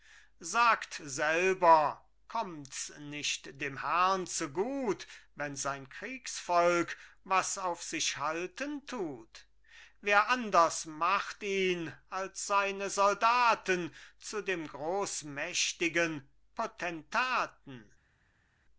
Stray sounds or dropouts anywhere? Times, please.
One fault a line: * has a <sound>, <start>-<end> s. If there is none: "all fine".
all fine